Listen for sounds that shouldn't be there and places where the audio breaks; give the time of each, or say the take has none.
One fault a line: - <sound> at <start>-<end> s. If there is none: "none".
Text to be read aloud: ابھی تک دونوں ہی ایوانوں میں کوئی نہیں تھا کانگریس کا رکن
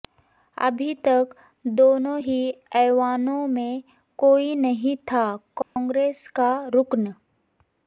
- dropout at 5.6-5.8 s